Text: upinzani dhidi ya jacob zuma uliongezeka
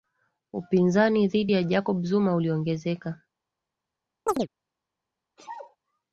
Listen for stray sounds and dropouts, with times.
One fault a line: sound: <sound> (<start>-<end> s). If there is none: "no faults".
sound: chirp (4.3-4.5 s)
sound: sneeze (5.4-5.8 s)